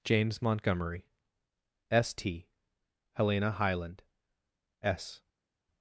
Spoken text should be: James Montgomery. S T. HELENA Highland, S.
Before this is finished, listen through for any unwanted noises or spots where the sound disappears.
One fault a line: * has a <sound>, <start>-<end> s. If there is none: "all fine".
all fine